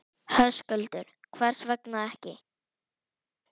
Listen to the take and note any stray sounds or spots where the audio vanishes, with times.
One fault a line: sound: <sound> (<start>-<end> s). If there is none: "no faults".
no faults